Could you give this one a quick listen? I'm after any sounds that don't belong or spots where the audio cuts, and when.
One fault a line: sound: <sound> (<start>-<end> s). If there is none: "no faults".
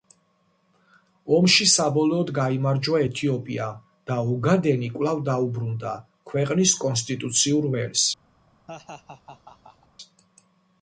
sound: laugh (8.7-9.9 s)